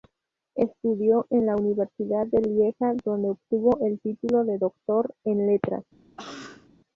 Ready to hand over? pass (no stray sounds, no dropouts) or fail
fail